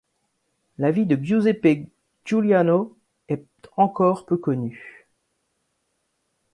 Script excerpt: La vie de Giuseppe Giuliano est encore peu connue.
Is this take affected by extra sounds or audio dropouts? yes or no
no